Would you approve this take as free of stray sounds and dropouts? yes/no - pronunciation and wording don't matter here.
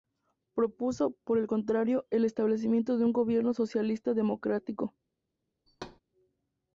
no